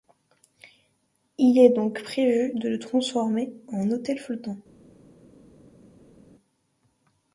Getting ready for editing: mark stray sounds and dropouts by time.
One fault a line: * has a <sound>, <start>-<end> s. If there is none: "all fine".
all fine